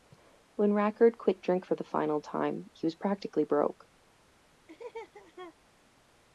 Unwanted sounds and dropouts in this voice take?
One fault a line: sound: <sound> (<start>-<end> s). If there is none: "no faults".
sound: laugh (4.7-5.6 s)